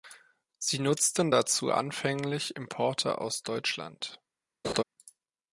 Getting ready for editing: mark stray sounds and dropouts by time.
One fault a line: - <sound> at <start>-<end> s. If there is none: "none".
- laugh at 4.6-4.8 s